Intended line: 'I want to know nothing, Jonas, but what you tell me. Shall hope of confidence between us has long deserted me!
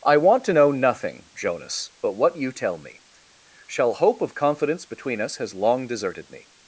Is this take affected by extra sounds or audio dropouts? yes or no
no